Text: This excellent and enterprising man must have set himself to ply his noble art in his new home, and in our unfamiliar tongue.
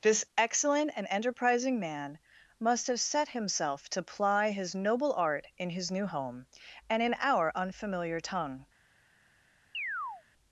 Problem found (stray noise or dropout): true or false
true